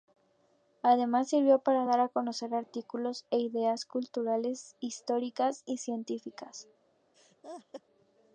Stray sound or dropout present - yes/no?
yes